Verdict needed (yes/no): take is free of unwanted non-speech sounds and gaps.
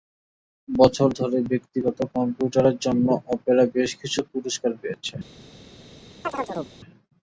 no